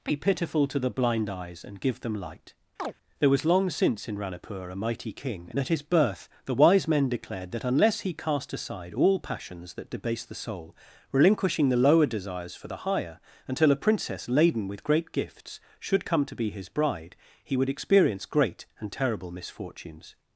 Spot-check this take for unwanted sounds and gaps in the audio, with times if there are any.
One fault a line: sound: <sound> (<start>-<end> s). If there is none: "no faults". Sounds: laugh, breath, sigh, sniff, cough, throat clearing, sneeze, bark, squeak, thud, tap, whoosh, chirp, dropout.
sound: chirp (2.8-2.9 s)